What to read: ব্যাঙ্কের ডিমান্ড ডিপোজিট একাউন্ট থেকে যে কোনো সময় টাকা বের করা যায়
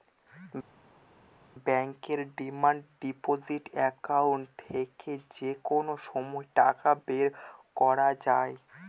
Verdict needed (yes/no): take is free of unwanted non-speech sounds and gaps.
yes